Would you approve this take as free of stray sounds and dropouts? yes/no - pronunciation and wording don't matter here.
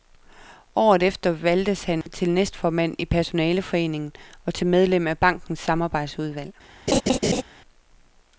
no